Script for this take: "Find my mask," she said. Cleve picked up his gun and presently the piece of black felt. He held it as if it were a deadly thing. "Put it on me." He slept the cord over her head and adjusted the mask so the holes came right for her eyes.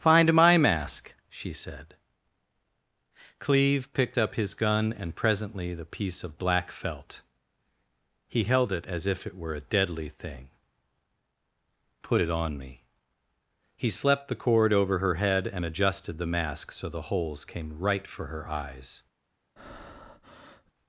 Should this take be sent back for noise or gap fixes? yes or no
yes